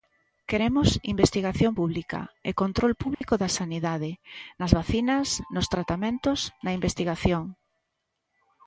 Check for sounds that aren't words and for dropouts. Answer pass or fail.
fail